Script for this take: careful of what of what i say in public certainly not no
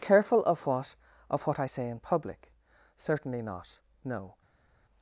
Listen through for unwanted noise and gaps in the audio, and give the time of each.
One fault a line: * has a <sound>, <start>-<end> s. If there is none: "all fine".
all fine